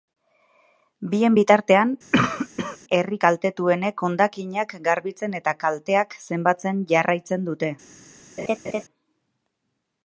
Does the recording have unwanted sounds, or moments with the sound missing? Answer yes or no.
yes